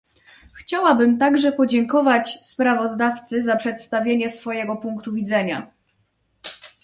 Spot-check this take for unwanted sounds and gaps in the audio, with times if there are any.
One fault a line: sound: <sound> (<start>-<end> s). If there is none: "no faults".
no faults